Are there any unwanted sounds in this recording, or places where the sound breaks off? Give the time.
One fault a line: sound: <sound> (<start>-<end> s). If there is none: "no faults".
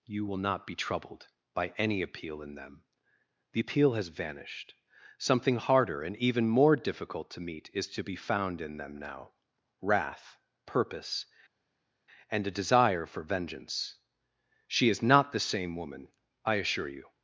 no faults